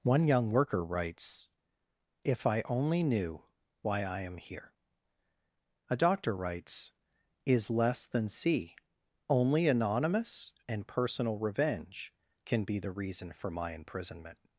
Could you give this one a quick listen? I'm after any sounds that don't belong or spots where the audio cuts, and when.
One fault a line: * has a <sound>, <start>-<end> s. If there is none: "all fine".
all fine